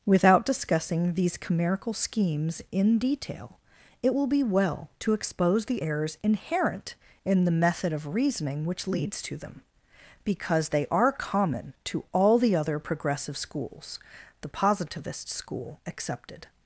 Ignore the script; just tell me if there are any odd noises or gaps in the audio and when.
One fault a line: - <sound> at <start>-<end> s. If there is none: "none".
none